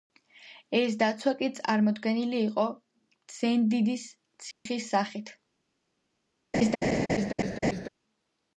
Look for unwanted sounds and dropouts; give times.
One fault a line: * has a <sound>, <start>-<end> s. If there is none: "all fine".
* has a dropout, 4.5-4.7 s
* has a laugh, 6.5-7.9 s